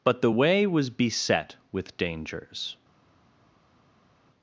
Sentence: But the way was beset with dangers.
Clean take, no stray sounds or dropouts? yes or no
yes